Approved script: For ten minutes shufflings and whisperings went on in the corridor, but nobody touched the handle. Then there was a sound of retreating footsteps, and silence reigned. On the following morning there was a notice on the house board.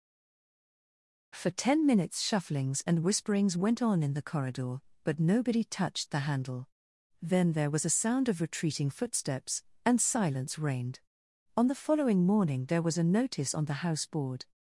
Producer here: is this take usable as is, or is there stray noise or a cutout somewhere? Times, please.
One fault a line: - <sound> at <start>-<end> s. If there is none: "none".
none